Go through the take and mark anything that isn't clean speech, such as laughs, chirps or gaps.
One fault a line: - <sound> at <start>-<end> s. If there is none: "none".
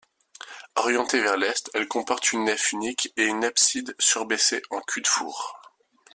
none